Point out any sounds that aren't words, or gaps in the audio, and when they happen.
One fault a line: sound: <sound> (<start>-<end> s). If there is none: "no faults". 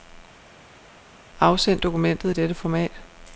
no faults